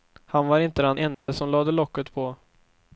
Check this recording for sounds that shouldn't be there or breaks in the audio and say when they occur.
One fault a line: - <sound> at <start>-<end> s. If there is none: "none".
- dropout at 1.1-1.3 s